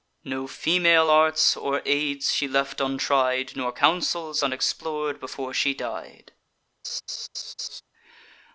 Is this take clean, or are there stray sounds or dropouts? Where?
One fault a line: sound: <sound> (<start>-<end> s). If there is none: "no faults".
sound: laugh (6.8-7.8 s)